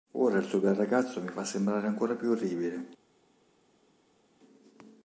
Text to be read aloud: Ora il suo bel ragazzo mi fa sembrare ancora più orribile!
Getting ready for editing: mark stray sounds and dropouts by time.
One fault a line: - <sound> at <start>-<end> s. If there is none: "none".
none